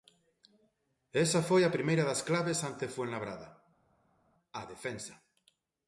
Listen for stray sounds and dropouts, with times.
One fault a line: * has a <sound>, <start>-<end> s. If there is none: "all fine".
all fine